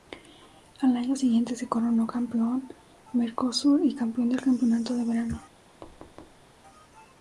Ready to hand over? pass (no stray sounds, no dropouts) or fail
fail